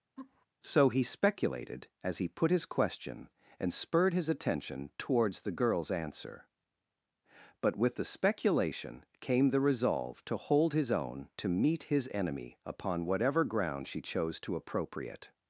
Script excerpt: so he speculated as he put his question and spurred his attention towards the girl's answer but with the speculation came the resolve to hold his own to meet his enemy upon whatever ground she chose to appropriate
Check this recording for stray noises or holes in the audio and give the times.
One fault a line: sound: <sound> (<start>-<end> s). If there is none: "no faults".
sound: laugh (0.2-0.5 s)